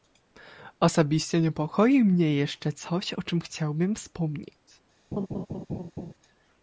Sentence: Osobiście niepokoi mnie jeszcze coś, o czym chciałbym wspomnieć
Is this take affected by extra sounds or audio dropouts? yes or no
yes